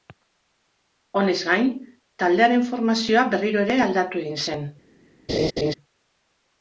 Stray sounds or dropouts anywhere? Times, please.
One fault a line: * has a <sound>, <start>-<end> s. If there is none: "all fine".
* has a laugh, 5.3-5.7 s